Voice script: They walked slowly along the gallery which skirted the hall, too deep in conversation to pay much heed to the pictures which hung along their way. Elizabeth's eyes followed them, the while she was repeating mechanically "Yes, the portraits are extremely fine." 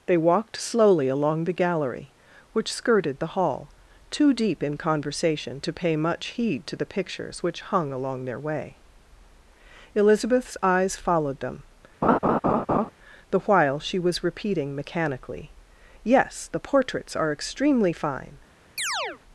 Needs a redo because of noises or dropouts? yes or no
yes